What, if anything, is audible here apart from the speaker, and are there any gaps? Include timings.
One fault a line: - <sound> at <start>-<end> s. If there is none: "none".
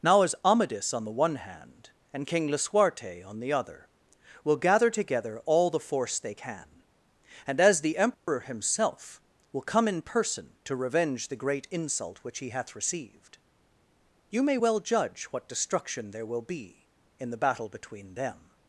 - dropout at 8.1-8.3 s